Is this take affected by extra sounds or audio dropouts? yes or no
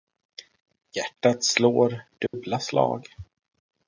yes